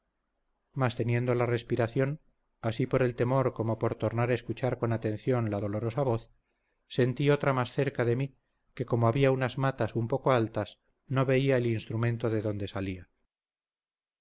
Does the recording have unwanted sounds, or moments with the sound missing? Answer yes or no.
no